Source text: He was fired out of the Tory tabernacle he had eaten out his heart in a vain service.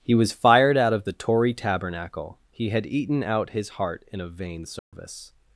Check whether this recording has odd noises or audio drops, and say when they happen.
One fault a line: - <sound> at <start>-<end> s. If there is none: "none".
- dropout at 4.8-4.9 s